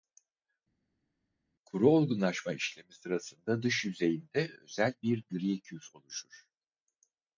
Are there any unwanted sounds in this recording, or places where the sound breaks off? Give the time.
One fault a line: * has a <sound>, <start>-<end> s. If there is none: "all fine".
all fine